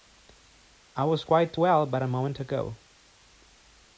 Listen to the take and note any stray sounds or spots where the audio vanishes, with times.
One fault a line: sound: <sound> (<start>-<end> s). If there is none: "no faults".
no faults